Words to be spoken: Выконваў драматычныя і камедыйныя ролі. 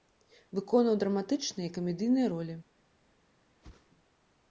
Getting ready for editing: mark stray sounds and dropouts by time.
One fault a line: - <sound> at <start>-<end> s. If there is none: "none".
- whoosh at 3.6-3.9 s